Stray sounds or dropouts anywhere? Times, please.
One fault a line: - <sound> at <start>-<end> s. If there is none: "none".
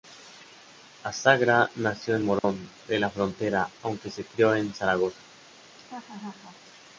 - dropout at 2.4-2.4 s
- laugh at 5.7-6.6 s